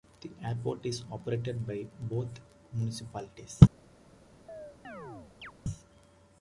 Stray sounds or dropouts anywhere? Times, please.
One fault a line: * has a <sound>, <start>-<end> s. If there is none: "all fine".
* has a chirp, 4.5-5.5 s